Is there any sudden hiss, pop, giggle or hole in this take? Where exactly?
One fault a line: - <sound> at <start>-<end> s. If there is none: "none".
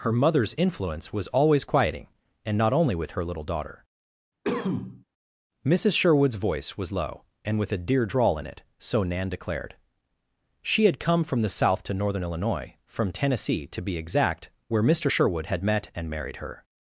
- cough at 4.4-5.0 s